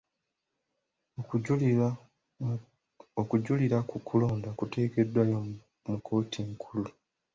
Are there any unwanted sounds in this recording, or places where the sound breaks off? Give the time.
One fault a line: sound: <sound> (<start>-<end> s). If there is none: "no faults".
no faults